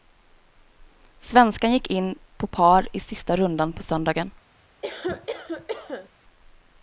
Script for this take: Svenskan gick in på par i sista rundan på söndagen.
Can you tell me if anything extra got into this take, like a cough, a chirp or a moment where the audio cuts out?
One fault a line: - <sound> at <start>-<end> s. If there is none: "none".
- cough at 4.8-6.1 s